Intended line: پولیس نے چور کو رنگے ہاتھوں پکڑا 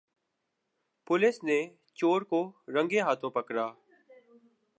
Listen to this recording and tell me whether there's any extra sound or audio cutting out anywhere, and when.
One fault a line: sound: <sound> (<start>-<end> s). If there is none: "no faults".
no faults